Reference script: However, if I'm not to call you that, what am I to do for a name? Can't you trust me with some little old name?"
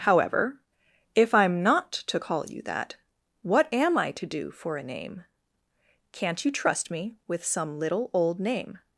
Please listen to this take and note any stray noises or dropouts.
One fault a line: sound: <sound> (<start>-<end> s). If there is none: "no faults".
no faults